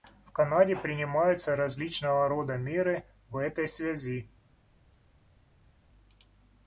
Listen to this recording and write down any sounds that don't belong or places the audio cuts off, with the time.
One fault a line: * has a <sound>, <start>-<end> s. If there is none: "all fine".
all fine